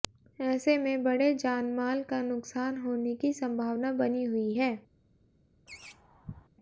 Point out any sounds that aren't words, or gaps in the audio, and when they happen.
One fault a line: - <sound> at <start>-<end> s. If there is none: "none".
- laugh at 5.7-6.5 s